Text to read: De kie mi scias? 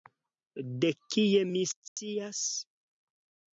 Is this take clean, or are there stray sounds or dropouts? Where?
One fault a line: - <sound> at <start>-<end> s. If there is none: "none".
- dropout at 1.9-2.0 s